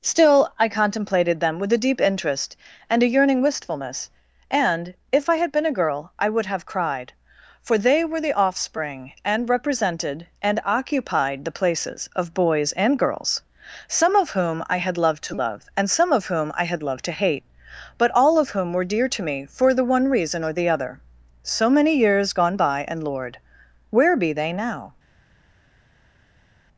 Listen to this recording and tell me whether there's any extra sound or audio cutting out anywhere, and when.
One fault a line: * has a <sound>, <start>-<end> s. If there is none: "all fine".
all fine